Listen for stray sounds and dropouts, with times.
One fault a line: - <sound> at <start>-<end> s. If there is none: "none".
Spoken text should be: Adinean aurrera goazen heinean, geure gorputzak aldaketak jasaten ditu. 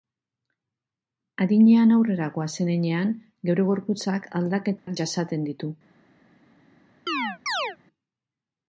- dropout at 4.8-4.9 s
- chirp at 7.1-7.8 s